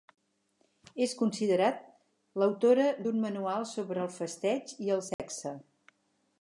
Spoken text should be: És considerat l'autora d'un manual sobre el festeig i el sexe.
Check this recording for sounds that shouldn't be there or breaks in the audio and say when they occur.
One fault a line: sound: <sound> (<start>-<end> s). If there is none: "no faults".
sound: dropout (5.1-5.2 s)